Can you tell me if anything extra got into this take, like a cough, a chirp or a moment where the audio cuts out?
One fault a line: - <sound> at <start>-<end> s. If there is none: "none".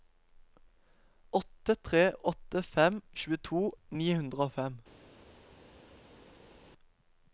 none